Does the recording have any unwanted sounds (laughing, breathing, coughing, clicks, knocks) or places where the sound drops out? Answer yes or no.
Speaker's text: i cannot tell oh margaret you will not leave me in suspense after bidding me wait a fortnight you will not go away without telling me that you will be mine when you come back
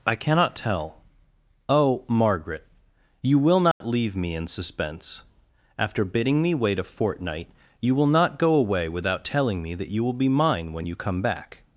yes